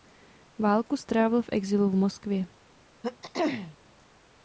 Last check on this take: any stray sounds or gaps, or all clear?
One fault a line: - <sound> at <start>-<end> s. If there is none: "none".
- throat clearing at 3.0-3.8 s